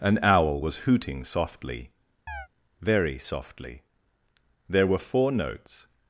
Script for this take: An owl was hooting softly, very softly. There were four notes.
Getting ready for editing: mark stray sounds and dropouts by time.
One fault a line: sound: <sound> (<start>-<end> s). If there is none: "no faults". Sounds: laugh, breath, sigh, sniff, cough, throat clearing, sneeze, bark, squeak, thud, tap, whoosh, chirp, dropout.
sound: chirp (2.3-2.5 s)